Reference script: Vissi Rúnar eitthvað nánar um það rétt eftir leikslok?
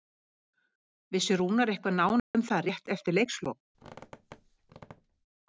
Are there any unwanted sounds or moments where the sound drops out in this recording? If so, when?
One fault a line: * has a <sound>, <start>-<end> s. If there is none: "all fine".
* has a dropout, 2.2-2.3 s
* has a squeak, 3.7-5.3 s